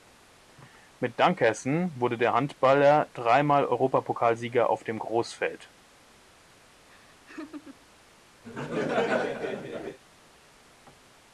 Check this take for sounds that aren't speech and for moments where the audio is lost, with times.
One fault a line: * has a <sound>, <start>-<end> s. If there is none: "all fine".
* has a laugh, 6.9-7.9 s
* has a laugh, 8.4-10.0 s